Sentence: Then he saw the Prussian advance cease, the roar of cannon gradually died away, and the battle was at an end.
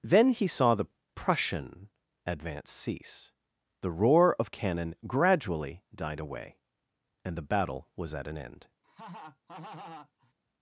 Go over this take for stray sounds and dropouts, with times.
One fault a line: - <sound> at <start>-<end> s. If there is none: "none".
- laugh at 8.8-10.3 s